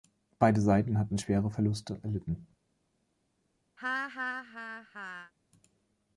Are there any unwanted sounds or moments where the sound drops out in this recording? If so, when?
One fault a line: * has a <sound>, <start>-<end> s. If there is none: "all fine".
* has a laugh, 3.8-5.3 s